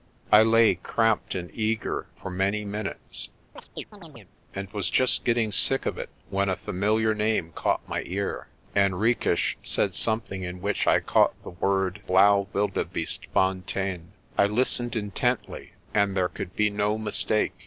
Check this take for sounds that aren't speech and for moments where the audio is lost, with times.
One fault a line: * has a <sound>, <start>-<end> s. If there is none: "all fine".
* has a chirp, 3.6-4.3 s